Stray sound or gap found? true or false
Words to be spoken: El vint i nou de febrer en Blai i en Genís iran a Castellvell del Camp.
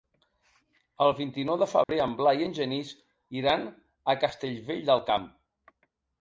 true